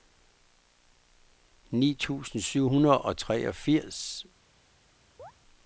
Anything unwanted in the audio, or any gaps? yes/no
yes